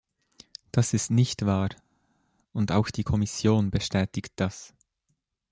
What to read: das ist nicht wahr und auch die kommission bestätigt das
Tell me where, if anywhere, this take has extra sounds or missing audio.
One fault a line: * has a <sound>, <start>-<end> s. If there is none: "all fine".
all fine